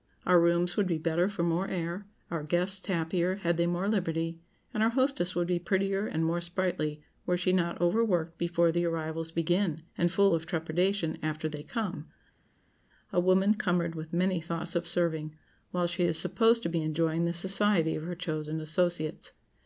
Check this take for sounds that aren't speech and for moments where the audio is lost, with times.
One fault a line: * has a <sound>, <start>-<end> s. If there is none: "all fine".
all fine